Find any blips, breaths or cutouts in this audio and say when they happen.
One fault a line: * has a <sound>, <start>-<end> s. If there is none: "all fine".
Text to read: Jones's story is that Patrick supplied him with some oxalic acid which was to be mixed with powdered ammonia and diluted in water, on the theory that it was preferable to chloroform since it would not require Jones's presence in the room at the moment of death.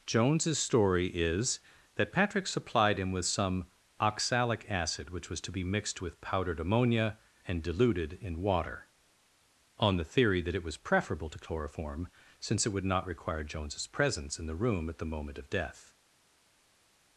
all fine